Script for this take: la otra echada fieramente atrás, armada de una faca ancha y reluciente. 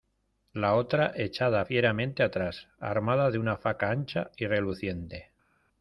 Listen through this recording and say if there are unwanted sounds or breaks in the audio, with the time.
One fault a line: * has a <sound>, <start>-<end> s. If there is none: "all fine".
all fine